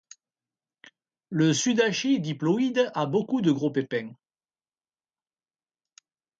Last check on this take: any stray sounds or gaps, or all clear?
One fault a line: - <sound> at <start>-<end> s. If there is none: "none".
none